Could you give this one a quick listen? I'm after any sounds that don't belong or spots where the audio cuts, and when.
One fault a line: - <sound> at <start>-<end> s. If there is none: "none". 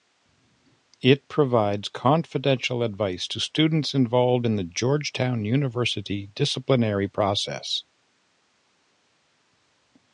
none